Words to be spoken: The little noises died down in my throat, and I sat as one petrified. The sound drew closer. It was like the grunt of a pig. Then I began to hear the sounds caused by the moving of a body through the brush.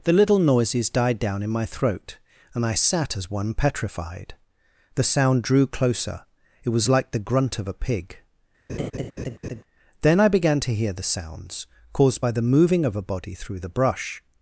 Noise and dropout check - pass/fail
fail